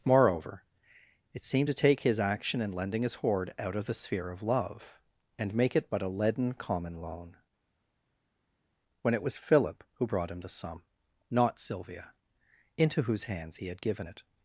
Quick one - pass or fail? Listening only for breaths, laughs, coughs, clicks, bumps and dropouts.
pass